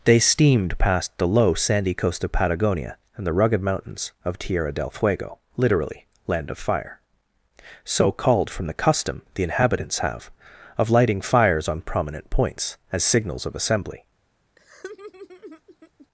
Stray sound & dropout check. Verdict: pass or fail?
fail